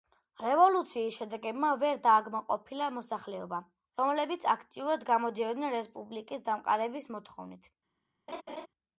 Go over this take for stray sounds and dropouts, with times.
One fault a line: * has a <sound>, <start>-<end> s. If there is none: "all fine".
* has a laugh, 8.3-8.7 s